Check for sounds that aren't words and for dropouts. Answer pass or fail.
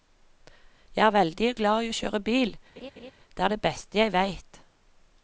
fail